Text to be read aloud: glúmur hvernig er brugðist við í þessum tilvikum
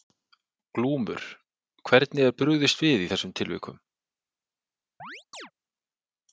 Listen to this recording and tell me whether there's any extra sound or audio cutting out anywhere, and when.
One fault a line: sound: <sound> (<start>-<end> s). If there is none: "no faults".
sound: chirp (5.0-5.5 s)